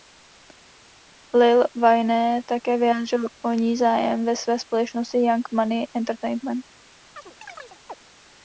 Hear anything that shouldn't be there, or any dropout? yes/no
yes